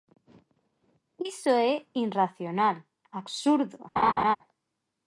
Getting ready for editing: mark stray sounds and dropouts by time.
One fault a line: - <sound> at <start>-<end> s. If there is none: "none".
- laugh at 4.0-4.4 s